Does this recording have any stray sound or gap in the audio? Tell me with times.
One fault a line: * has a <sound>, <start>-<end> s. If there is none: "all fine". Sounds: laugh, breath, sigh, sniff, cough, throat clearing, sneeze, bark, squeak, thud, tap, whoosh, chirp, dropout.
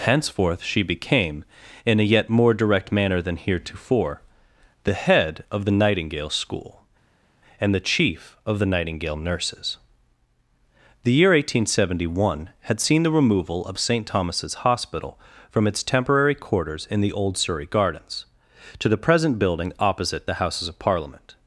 all fine